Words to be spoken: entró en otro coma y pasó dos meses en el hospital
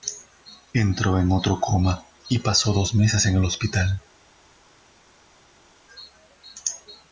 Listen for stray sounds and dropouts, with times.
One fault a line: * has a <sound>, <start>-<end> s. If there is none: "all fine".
all fine